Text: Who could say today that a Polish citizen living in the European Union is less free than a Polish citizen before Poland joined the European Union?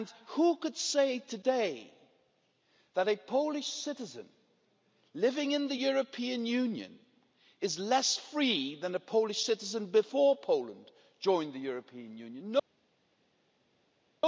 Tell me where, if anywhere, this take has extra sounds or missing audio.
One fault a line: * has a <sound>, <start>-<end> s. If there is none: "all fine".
all fine